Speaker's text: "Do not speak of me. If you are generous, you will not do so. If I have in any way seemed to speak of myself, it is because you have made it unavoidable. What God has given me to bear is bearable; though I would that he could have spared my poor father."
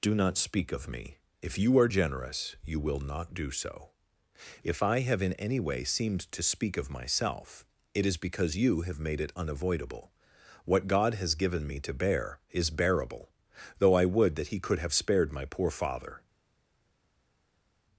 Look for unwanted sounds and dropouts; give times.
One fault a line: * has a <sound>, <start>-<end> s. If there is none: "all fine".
all fine